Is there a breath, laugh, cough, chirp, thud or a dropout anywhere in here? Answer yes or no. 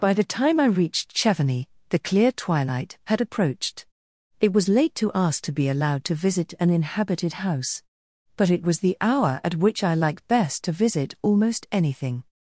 no